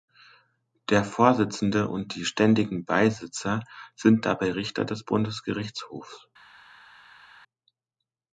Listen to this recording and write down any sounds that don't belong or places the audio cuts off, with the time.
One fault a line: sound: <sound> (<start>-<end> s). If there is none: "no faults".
no faults